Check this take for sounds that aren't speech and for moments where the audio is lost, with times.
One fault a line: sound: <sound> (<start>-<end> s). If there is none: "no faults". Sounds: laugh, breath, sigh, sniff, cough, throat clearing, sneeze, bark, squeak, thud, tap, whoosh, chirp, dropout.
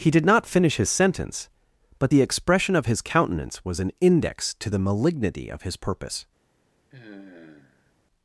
sound: sigh (6.9-7.9 s)